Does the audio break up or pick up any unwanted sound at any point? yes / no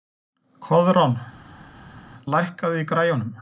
no